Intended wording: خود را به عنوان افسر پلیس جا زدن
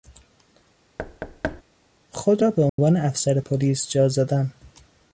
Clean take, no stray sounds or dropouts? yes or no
no